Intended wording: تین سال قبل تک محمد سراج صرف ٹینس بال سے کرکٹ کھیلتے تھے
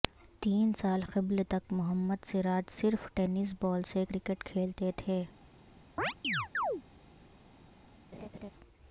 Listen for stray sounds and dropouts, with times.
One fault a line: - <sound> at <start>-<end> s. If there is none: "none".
- chirp at 6.0-6.8 s
- laugh at 8.1-8.5 s